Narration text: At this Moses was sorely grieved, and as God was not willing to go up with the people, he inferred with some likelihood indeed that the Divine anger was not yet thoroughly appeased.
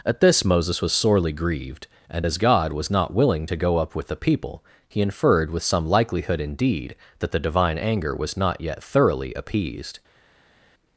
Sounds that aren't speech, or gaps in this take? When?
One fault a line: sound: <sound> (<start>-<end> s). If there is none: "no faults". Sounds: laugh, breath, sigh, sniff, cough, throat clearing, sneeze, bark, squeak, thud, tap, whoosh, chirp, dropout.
no faults